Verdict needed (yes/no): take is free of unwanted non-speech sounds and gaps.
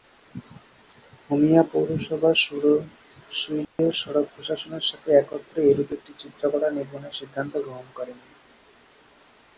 no